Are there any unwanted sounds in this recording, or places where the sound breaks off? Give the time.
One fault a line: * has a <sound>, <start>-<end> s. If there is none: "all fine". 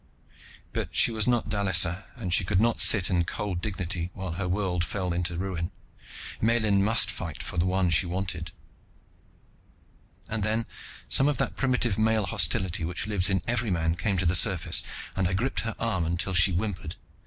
all fine